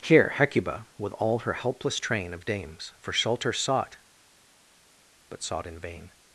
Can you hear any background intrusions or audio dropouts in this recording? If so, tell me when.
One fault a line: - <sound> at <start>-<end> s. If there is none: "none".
none